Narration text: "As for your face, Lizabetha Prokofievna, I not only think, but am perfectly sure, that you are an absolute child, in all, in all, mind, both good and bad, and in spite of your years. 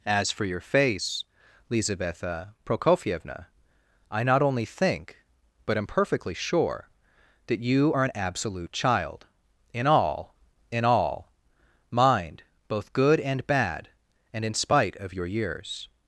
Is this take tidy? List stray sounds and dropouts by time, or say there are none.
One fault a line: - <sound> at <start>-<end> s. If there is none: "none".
none